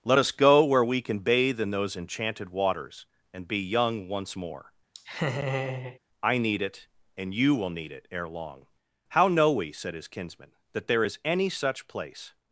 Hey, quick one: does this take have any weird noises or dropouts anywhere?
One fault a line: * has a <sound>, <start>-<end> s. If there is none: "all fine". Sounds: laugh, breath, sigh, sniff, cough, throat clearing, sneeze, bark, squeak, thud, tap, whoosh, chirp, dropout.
* has a laugh, 4.9-6.0 s